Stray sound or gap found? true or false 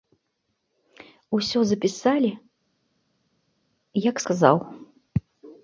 false